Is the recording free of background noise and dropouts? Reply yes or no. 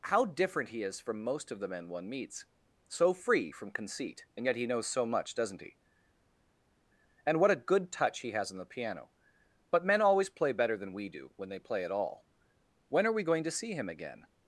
yes